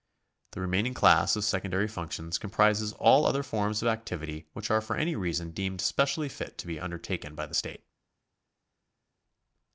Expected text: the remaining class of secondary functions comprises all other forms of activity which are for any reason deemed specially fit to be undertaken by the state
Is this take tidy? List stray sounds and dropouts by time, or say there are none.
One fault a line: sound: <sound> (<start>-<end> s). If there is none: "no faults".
no faults